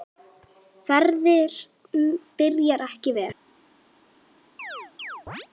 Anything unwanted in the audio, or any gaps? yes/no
yes